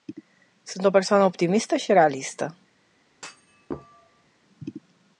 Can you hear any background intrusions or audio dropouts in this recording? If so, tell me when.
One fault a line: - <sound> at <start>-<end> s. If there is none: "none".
- thud at 3.1-4.3 s